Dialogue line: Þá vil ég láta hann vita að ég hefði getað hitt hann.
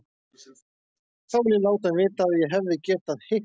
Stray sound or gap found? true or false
false